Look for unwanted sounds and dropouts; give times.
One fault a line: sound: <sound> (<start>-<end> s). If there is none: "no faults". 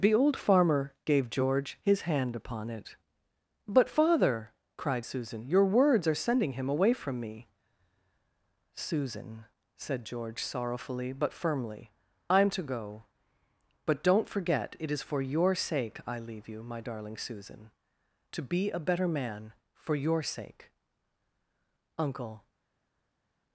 no faults